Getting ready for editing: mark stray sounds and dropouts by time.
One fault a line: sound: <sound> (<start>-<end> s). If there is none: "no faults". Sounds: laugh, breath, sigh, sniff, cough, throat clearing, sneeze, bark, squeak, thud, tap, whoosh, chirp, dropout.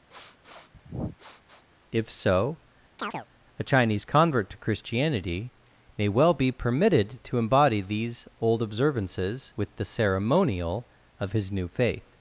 sound: sniff (0.1-1.7 s)
sound: chirp (3.0-3.3 s)